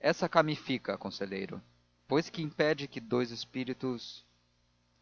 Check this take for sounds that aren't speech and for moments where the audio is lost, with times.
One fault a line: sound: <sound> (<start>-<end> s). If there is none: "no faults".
no faults